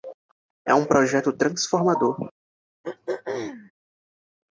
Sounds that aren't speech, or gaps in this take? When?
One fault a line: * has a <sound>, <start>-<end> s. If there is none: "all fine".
* has a throat clearing, 2.8-3.7 s